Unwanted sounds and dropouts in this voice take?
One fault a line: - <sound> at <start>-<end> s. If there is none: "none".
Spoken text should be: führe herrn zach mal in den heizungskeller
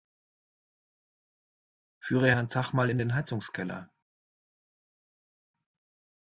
none